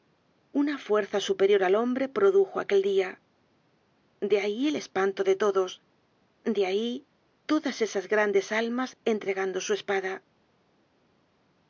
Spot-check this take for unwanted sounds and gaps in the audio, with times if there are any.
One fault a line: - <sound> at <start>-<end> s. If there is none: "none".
none